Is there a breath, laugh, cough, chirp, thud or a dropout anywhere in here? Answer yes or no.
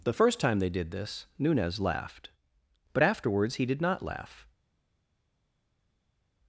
no